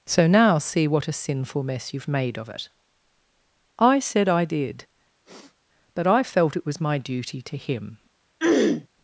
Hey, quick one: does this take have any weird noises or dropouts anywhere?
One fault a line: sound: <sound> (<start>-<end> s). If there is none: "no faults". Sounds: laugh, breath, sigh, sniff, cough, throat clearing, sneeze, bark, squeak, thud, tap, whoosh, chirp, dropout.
sound: sniff (5.2-5.6 s)
sound: throat clearing (8.4-8.9 s)